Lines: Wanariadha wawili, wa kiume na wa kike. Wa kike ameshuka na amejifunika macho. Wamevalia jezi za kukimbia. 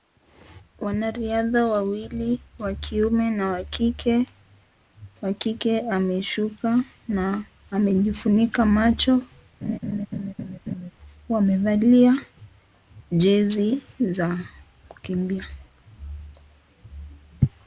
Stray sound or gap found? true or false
true